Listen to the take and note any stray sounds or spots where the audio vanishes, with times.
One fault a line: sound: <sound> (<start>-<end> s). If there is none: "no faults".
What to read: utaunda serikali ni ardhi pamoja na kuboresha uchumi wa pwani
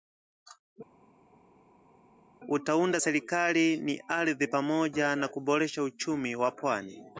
no faults